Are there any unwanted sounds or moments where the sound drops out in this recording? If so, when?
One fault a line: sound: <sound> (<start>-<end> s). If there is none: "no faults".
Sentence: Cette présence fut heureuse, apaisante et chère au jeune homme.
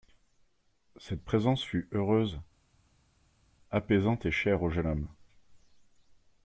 no faults